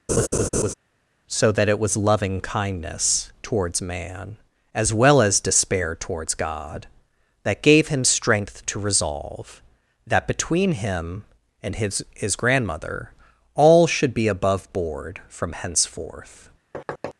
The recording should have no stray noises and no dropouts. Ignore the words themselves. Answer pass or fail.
fail